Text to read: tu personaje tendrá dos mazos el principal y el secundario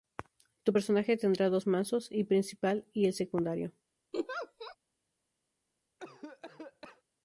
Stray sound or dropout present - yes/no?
yes